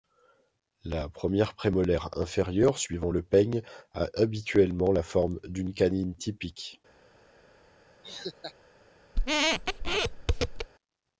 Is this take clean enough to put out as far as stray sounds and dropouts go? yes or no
no